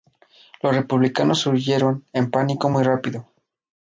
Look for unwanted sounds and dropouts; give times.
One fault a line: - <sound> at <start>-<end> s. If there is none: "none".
none